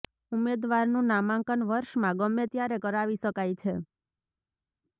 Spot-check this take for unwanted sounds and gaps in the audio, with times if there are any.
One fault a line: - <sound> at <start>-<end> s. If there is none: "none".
none